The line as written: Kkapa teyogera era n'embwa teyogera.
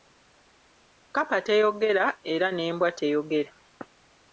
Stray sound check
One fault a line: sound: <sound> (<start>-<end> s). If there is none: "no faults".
no faults